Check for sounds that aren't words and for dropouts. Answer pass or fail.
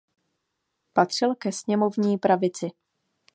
pass